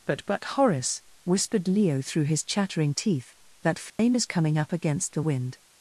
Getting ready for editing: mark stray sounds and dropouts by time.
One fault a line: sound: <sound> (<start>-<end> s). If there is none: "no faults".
sound: dropout (3.9-4.0 s)